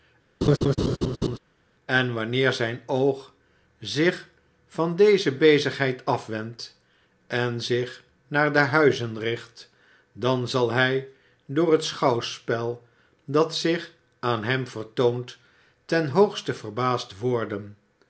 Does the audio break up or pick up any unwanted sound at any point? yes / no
yes